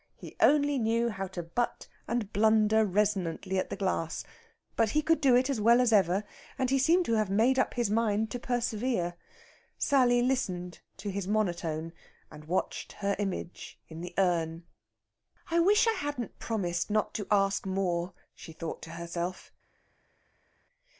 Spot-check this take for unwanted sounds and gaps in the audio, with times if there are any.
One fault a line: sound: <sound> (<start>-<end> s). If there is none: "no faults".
no faults